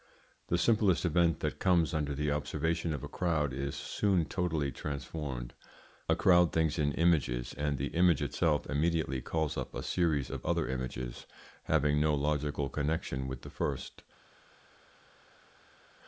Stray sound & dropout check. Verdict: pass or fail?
pass